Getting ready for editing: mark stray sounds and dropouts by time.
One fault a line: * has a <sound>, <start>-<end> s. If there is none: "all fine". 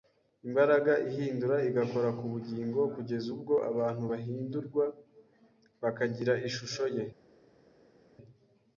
all fine